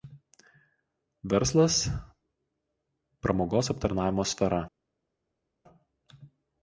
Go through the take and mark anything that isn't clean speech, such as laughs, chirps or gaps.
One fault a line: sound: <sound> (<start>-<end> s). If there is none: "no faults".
no faults